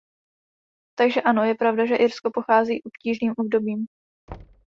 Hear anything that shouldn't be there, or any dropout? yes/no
yes